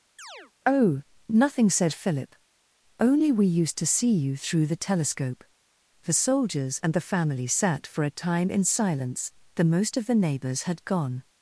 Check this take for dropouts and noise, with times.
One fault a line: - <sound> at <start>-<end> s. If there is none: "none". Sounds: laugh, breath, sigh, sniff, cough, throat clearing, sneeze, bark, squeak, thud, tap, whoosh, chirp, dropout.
- chirp at 0.2-0.5 s